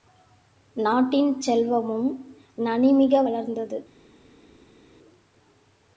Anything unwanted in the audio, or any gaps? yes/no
no